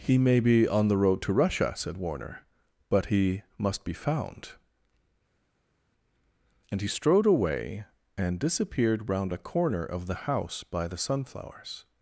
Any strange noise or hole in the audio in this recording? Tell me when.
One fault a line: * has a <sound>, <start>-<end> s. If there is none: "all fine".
all fine